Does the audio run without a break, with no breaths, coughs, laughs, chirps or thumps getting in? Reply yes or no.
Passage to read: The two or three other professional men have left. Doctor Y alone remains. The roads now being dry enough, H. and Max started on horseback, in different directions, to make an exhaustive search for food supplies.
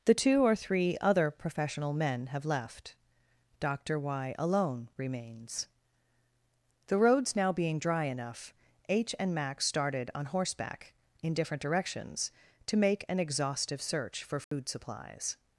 no